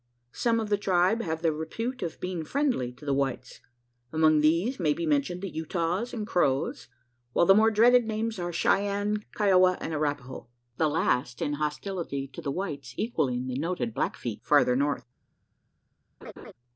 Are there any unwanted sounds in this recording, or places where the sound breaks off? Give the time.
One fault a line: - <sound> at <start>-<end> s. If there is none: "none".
- laugh at 16.2-16.5 s